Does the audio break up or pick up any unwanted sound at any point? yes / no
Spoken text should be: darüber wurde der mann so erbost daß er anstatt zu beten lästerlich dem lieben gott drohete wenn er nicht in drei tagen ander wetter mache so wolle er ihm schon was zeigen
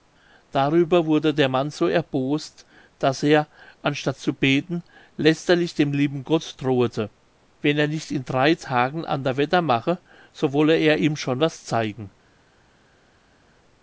no